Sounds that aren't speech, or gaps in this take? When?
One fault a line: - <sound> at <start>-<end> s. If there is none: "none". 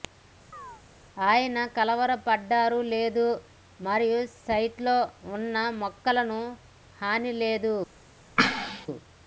- chirp at 0.5-0.8 s
- sneeze at 8.4-8.9 s